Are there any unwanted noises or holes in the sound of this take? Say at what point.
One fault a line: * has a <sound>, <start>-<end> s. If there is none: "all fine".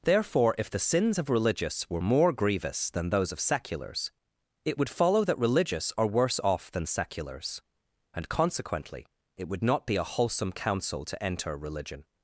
all fine